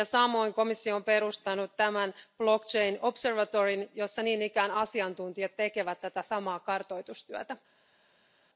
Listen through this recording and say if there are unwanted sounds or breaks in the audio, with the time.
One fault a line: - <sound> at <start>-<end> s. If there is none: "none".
none